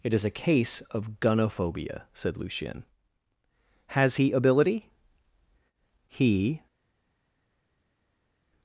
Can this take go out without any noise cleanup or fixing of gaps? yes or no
yes